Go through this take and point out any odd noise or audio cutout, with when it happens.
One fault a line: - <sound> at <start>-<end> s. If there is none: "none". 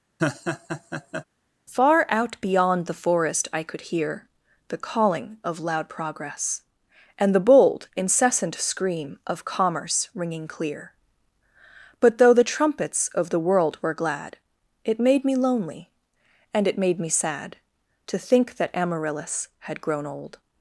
- laugh at 0.2-1.2 s